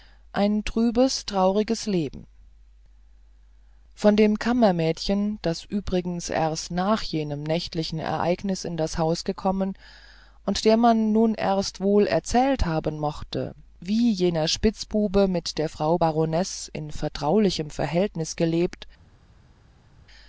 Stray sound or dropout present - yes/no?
no